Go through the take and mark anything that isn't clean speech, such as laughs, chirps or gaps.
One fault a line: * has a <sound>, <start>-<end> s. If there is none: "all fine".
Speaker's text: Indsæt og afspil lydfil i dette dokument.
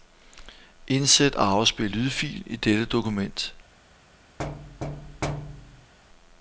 * has a thud, 4.4-5.9 s